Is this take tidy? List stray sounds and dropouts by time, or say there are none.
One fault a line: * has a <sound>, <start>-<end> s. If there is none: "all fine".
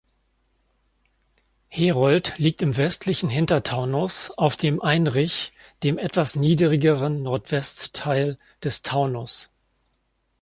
all fine